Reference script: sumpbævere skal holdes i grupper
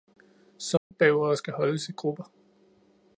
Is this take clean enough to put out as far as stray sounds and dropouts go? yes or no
no